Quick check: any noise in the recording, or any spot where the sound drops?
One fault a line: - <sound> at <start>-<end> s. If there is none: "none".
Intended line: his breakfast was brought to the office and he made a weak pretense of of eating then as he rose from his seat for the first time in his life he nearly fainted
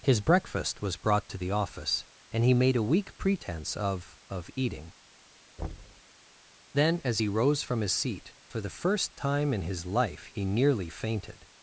- thud at 5.6-6.0 s